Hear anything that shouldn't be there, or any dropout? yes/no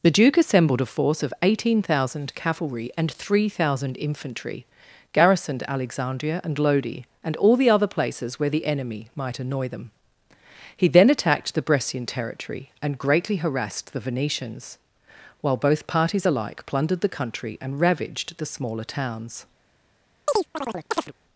yes